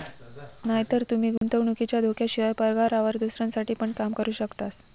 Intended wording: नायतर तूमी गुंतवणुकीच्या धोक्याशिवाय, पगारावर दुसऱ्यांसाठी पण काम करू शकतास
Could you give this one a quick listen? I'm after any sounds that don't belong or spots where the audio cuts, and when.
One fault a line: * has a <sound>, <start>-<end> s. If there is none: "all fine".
* has a dropout, 1.4-1.4 s